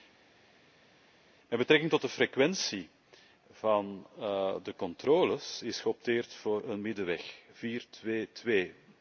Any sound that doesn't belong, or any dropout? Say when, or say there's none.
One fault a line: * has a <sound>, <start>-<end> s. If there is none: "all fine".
all fine